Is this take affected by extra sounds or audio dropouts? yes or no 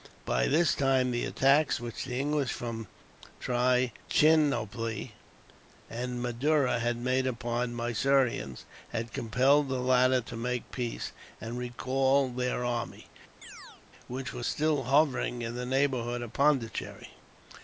yes